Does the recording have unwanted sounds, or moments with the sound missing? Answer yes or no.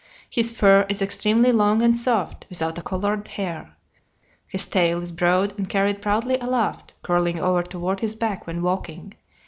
no